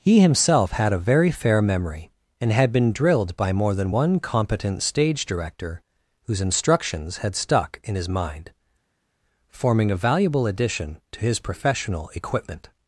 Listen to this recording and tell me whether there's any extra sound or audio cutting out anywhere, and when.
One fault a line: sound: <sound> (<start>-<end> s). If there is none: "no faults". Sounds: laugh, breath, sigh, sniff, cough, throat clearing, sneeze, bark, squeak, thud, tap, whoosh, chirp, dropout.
no faults